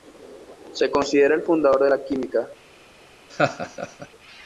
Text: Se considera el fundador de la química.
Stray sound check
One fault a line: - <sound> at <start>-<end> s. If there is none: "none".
- laugh at 3.3-4.1 s